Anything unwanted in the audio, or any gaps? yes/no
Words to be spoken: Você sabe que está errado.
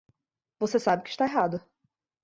no